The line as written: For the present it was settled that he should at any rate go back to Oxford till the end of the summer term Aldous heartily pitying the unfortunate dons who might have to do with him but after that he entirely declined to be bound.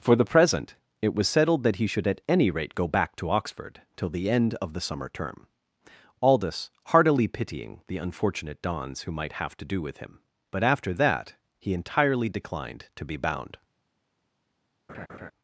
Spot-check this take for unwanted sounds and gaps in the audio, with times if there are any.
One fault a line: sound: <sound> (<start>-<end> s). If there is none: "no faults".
sound: laugh (14.9-15.3 s)